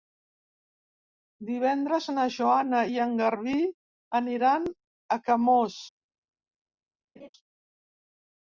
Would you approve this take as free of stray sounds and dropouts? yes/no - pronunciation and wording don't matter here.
no